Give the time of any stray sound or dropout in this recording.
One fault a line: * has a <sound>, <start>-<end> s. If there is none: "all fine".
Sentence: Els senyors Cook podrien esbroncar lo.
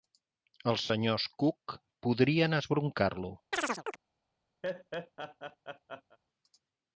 * has a chirp, 3.5-4.0 s
* has a laugh, 4.6-6.2 s